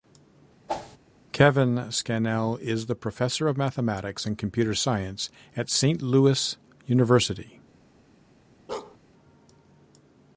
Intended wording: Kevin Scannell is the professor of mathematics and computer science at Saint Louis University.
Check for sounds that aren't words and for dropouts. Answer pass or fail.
fail